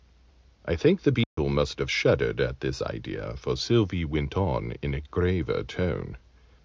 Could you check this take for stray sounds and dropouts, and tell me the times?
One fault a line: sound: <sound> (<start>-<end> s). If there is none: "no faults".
sound: dropout (1.2-1.4 s)